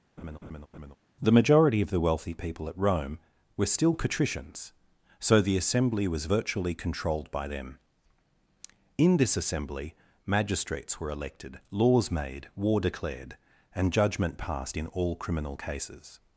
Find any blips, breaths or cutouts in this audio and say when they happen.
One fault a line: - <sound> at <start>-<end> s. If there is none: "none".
- laugh at 0.2-1.0 s